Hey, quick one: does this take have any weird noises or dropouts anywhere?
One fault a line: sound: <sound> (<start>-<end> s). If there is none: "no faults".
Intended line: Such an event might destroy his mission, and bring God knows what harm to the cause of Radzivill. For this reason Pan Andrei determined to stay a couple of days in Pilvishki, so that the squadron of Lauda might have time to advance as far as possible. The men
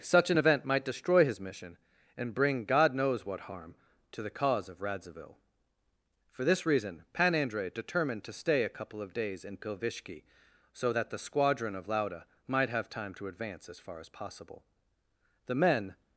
no faults